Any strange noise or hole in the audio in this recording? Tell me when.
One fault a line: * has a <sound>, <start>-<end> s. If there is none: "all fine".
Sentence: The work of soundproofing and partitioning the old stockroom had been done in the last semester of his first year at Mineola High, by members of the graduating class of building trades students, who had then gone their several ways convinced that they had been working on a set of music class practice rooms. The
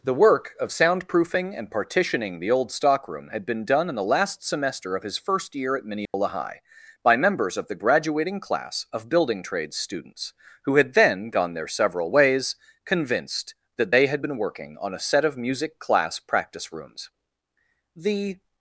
* has a dropout, 6.1-6.1 s